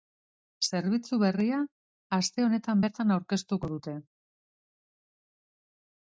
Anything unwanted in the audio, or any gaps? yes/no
no